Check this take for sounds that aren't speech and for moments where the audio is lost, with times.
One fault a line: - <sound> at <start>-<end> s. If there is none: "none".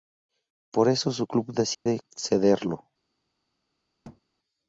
- dropout at 1.7-1.9 s
- thud at 4.0-4.2 s